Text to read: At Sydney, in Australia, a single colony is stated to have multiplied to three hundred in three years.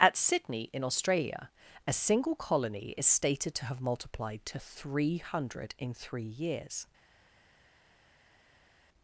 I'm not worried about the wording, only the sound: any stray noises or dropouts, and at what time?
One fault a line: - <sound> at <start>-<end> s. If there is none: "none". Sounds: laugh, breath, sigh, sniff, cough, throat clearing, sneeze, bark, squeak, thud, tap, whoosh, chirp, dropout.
none